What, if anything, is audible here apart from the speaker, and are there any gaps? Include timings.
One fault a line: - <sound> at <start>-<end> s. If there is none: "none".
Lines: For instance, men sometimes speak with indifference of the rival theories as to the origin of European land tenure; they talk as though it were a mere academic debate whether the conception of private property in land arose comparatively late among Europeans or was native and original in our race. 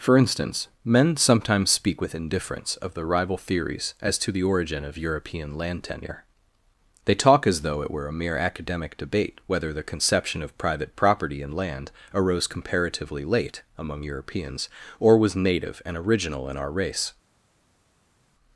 none